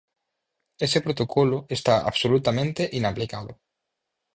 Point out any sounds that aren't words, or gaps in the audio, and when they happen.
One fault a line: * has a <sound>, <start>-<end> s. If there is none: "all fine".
all fine